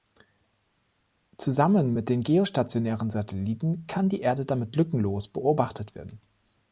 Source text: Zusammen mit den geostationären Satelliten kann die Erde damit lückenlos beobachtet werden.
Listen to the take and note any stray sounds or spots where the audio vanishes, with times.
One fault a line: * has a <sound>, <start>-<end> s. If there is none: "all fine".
all fine